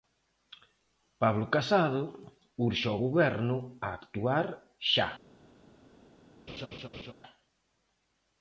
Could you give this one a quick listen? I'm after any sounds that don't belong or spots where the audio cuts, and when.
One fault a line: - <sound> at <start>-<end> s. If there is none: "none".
- laugh at 6.5-7.1 s